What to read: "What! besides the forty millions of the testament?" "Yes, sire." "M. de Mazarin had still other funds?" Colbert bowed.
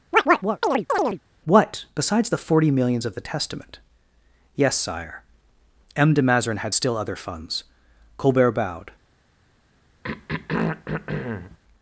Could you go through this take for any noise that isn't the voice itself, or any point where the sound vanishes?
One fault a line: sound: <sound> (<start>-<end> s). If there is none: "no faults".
sound: chirp (0.1-1.2 s)
sound: throat clearing (10.0-11.6 s)